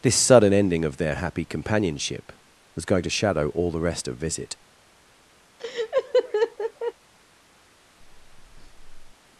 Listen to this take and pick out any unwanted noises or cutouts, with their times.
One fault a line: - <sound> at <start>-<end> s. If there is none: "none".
- laugh at 5.6-6.9 s
- breath at 8.0-9.1 s